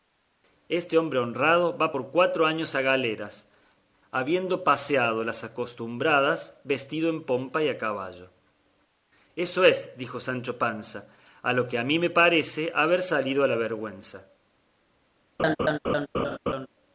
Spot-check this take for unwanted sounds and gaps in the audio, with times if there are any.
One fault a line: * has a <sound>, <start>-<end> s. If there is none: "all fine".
* has a laugh, 15.4-16.7 s